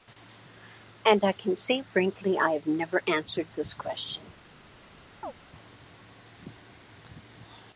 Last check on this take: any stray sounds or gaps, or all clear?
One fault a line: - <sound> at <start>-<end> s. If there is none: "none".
- chirp at 5.2-5.3 s